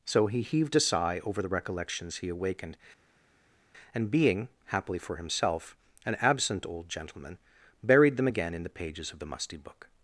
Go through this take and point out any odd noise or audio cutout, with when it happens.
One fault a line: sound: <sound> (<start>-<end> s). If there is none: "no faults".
no faults